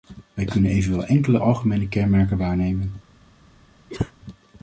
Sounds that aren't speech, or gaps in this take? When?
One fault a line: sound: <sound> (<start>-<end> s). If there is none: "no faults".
sound: cough (3.9-4.1 s)